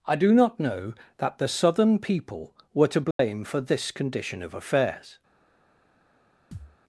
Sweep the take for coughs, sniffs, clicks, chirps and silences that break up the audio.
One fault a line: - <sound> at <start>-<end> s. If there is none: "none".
- dropout at 3.1-3.2 s
- thud at 6.5-6.8 s